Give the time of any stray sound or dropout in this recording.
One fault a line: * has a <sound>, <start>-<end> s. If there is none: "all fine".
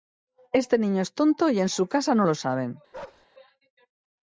* has a bark, 2.9-3.3 s